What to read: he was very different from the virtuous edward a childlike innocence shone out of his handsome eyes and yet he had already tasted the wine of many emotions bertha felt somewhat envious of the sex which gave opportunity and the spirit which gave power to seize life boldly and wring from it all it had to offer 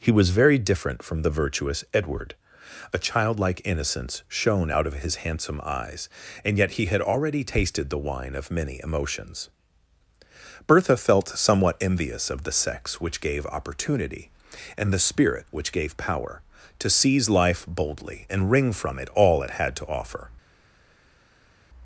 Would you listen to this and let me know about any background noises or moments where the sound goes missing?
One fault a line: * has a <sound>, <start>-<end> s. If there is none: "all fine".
all fine